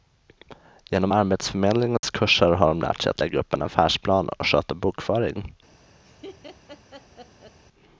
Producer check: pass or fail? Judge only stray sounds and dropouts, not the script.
fail